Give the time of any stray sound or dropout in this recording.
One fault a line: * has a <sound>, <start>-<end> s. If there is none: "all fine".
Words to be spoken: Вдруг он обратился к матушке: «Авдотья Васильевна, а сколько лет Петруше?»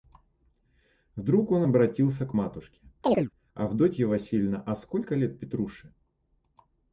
* has a chirp, 3.0-3.3 s